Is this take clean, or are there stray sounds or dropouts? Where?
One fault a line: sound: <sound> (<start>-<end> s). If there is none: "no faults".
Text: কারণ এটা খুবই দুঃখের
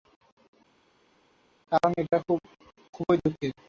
no faults